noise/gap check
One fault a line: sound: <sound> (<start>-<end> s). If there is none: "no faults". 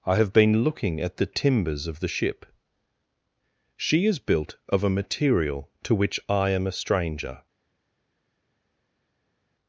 no faults